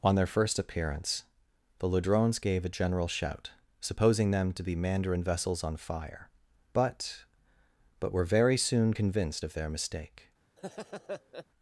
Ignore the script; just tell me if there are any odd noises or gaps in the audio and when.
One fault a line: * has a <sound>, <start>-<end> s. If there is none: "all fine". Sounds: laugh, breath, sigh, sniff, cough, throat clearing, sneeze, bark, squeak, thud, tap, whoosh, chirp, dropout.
* has a laugh, 10.6-11.5 s